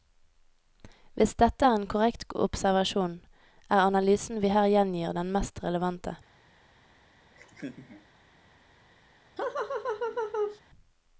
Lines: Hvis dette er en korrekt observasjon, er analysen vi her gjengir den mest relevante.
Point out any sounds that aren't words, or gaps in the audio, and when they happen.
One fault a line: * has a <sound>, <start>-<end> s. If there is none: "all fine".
* has a laugh, 7.3-8.1 s
* has a laugh, 9.4-10.6 s